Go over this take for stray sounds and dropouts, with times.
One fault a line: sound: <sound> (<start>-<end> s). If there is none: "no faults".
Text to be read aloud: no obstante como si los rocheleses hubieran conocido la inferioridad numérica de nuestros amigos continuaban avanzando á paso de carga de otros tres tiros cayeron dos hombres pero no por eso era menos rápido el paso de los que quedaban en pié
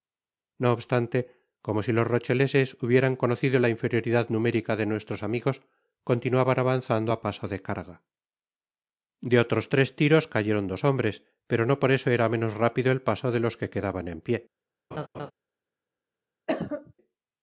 sound: laugh (14.9-15.3 s)
sound: cough (16.5-16.9 s)